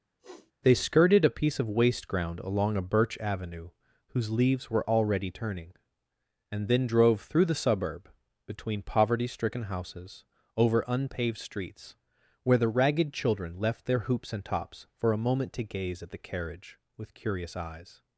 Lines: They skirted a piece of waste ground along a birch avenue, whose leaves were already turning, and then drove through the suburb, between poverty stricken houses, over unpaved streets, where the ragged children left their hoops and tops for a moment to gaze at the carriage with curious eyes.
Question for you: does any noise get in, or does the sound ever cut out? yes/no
yes